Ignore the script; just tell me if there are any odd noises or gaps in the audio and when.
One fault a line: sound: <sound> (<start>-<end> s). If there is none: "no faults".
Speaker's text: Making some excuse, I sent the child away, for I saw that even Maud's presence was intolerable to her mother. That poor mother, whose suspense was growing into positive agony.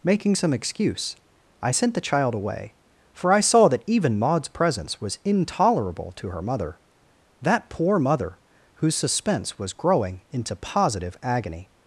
no faults